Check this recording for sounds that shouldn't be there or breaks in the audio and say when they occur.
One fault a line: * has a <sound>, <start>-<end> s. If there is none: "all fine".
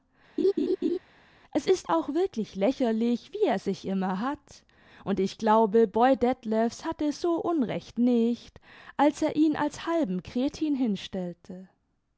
* has a laugh, 0.4-1.0 s